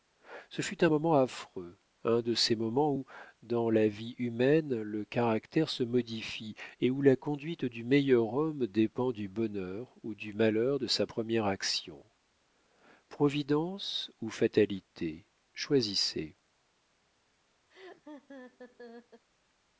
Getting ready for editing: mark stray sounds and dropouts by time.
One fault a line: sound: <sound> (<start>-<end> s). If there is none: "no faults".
sound: laugh (17.7-19.2 s)